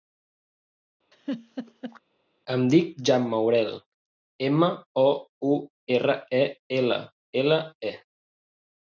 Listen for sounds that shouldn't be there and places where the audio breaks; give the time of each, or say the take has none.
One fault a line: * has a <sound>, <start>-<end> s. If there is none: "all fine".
* has a laugh, 1.1-2.0 s